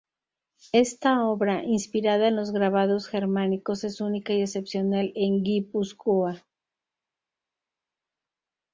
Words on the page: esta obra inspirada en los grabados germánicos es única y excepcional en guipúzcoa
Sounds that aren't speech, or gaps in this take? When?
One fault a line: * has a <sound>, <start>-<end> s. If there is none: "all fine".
all fine